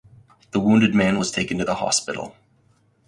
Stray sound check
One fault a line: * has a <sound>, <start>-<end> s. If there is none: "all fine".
all fine